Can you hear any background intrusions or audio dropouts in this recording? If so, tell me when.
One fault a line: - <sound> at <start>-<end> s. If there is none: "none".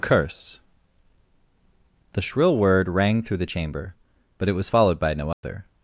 - dropout at 5.3-5.4 s